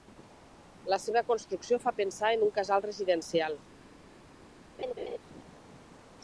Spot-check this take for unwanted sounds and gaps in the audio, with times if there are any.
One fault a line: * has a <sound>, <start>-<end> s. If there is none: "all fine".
* has a laugh, 4.8-5.2 s